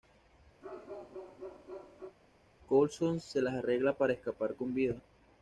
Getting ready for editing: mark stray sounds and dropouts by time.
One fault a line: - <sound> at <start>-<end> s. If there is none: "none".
- bark at 0.6-2.2 s